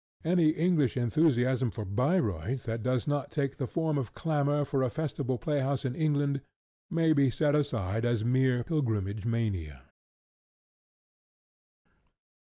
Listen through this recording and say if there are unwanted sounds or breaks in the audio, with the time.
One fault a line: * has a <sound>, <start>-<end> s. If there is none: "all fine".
all fine